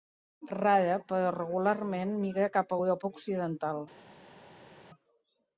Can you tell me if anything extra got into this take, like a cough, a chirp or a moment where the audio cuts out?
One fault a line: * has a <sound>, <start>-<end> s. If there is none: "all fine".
all fine